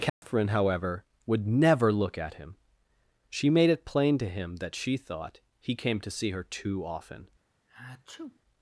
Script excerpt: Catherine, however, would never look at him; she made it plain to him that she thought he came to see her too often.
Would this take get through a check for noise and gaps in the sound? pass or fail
fail